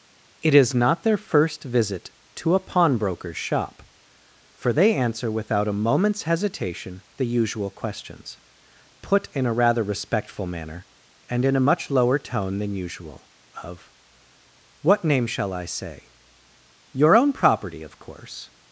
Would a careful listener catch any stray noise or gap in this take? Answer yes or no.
no